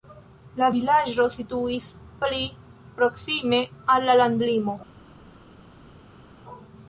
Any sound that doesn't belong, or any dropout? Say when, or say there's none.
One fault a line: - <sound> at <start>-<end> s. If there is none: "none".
none